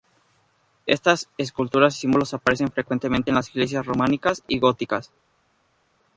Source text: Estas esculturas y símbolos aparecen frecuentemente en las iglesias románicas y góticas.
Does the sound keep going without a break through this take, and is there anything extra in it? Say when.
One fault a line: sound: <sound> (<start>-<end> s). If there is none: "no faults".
no faults